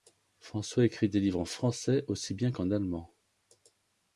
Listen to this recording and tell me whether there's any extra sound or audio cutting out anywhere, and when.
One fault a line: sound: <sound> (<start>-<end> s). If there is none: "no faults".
no faults